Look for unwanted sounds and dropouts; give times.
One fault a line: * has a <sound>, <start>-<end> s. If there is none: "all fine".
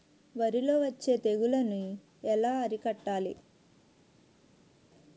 all fine